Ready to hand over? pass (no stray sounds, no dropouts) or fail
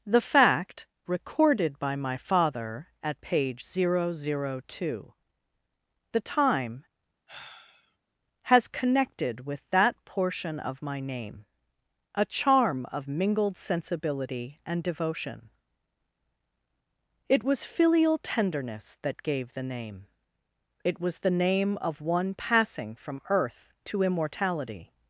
fail